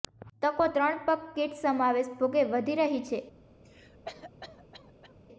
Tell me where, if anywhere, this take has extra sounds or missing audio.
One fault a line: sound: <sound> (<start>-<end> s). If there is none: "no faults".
sound: cough (3.6-5.1 s)